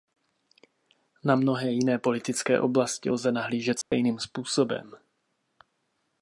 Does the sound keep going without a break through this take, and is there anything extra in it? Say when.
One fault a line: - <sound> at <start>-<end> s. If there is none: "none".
- dropout at 3.8-3.9 s